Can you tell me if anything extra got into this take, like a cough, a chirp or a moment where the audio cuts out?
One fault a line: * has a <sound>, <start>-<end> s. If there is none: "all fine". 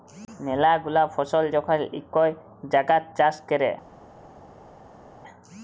all fine